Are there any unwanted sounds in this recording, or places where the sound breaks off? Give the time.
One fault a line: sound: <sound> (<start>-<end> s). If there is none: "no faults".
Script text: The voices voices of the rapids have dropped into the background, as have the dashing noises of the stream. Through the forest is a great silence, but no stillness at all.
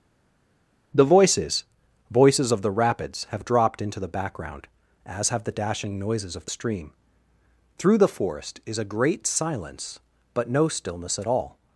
no faults